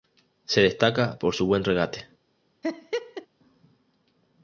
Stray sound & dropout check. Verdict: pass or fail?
fail